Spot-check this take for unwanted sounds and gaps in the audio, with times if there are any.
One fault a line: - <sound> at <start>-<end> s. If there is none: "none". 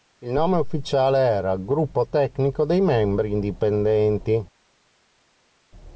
none